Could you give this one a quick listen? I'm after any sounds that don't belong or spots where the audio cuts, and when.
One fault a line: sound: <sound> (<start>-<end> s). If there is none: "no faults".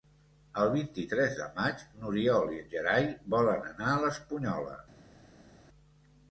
no faults